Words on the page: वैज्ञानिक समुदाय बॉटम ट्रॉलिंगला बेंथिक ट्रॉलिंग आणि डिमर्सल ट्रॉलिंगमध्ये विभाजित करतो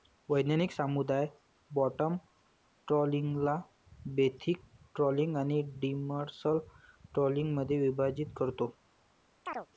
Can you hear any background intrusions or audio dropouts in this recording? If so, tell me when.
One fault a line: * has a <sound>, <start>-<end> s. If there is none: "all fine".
* has a chirp, 9.5-9.7 s